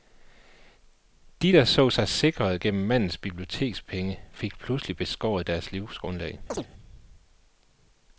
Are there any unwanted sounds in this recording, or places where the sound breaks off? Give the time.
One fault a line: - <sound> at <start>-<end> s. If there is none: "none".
- chirp at 6.5-6.7 s